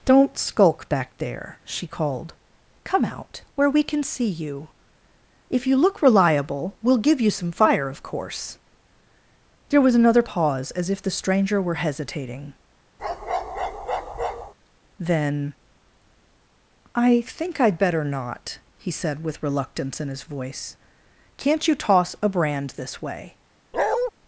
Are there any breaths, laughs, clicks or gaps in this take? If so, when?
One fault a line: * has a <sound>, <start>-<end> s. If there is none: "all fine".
* has a bark, 13.0-14.5 s
* has a bark, 23.7-24.1 s